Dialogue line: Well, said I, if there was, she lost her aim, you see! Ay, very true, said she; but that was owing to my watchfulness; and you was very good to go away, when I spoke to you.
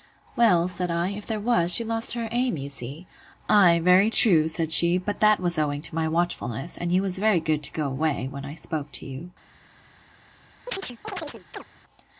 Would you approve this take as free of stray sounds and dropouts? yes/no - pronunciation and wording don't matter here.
no